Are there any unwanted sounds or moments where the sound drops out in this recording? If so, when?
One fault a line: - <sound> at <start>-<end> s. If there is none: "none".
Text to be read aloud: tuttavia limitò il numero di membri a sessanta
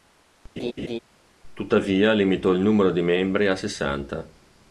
- laugh at 0.6-1.0 s